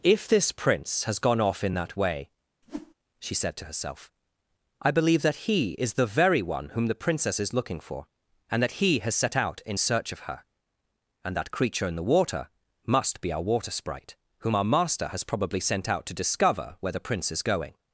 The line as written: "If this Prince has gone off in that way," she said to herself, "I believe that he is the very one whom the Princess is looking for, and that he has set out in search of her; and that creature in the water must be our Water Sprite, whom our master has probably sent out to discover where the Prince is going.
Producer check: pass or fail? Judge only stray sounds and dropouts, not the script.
fail